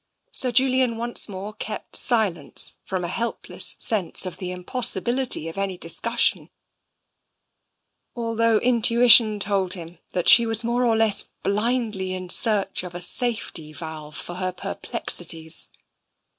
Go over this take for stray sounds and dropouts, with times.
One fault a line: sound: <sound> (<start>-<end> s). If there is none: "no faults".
no faults